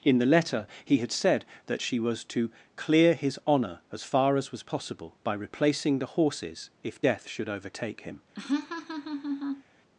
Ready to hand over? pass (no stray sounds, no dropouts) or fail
fail